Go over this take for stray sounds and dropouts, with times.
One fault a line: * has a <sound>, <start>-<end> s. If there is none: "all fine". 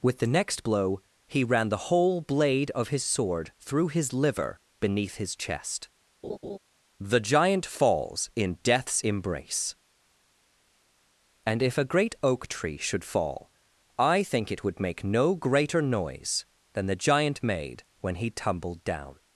* has a laugh, 6.2-6.6 s